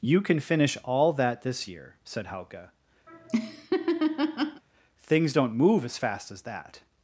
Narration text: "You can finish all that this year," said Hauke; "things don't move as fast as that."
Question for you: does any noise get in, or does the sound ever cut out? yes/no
yes